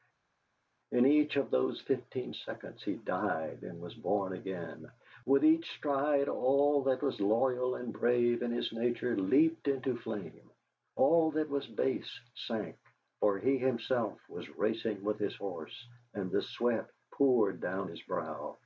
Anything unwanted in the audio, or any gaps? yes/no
no